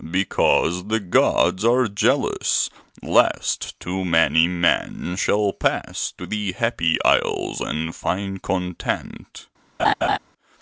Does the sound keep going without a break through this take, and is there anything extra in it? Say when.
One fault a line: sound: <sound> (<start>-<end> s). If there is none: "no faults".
sound: laugh (9.8-10.2 s)